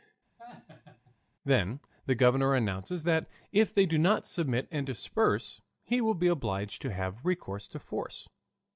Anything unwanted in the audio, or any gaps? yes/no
yes